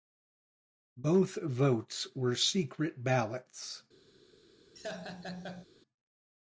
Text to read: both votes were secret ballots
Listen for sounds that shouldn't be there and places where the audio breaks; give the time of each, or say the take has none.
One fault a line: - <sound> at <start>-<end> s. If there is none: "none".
- laugh at 4.8-5.7 s